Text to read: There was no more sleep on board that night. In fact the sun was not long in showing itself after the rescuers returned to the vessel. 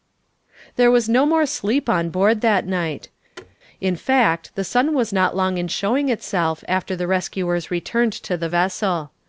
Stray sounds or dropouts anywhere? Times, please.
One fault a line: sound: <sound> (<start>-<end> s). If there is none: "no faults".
sound: thud (3.4-3.6 s)